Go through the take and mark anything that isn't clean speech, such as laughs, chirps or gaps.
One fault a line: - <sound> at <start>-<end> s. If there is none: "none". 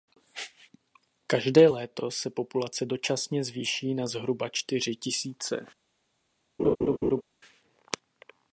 - laugh at 6.6-7.2 s